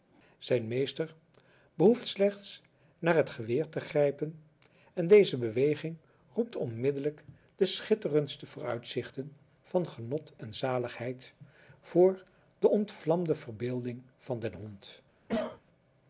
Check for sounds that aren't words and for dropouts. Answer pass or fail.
fail